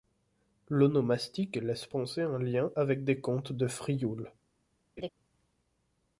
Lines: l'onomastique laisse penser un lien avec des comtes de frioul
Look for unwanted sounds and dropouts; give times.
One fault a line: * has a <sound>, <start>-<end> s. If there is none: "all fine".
* has a laugh, 5.0-5.1 s